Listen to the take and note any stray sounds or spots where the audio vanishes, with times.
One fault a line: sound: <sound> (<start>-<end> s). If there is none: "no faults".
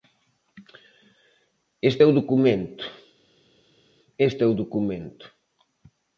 no faults